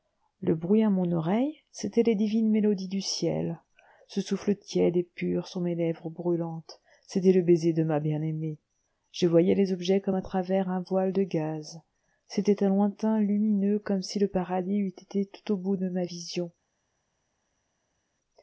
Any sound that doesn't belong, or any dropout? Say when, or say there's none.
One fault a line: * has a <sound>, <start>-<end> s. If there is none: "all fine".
all fine